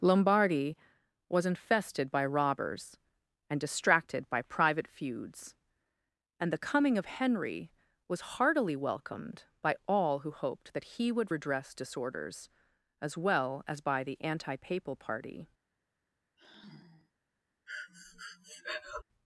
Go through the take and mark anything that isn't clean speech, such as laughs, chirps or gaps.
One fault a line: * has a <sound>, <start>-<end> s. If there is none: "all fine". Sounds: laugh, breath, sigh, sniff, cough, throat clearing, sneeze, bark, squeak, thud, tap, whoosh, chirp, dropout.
* has a sigh, 16.4-17.1 s
* has a breath, 17.7-19.0 s